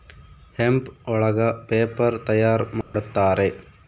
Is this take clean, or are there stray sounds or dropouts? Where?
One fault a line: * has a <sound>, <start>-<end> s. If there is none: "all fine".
* has a dropout, 2.8-2.9 s